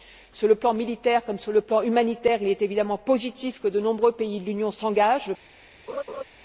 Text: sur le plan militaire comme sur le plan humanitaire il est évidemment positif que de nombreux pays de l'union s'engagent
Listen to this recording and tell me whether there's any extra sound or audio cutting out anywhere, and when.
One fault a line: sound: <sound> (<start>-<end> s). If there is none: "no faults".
sound: laugh (5.9-6.2 s)